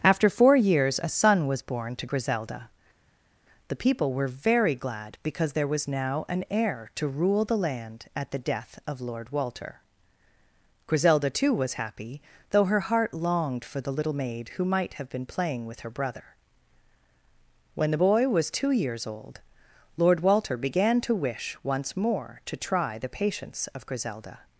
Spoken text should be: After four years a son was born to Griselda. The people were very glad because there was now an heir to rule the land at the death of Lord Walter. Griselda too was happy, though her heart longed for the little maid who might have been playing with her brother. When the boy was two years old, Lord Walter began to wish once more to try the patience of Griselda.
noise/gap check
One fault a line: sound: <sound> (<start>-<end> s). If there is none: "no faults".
no faults